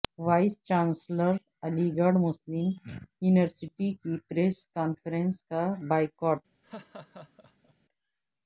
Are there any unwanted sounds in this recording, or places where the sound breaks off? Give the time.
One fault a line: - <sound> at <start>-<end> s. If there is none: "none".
- laugh at 6.6-7.7 s